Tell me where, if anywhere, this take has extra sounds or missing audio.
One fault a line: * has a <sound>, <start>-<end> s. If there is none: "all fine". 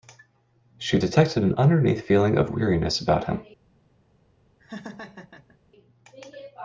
* has a laugh, 4.6-5.6 s